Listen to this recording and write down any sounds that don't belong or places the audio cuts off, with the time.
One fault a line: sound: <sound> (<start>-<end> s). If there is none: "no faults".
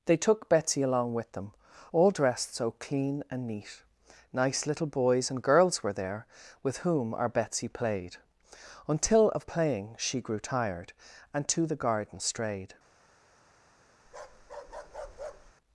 sound: bark (14.0-15.5 s)